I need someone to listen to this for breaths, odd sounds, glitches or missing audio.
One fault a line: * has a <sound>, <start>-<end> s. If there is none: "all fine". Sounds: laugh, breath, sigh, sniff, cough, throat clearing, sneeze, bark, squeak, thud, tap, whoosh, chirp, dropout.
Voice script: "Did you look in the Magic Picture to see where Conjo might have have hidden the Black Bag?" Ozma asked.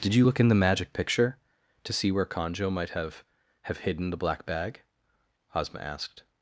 all fine